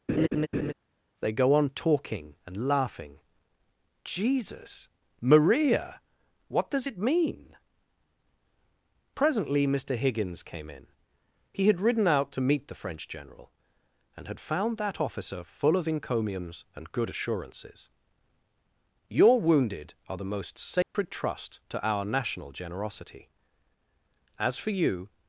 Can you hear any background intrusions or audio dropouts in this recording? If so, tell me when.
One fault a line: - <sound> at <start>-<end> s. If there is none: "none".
- laugh at 0.1-0.7 s
- dropout at 20.8-20.9 s